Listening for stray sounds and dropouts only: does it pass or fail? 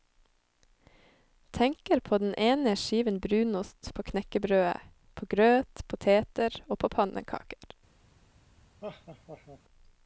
fail